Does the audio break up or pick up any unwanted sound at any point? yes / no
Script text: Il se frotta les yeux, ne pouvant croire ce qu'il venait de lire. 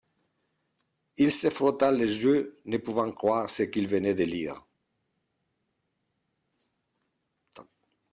no